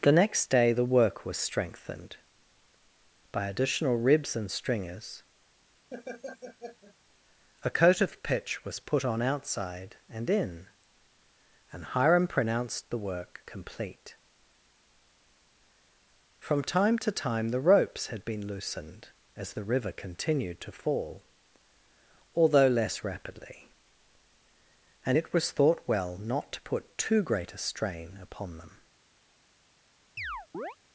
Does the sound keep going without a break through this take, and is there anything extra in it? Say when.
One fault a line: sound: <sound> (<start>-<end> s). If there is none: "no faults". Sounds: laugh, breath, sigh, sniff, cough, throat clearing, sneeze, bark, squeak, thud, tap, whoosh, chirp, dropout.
sound: laugh (5.9-7.0 s)
sound: chirp (30.2-30.8 s)